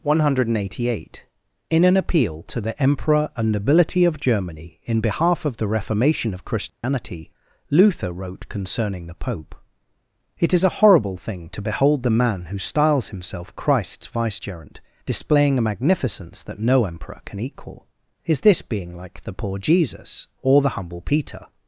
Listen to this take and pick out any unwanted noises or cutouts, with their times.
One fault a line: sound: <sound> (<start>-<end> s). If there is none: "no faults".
sound: dropout (6.7-6.8 s)